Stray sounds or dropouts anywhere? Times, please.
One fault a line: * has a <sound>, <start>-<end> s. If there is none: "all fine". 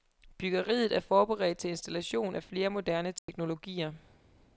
* has a dropout, 3.2-3.3 s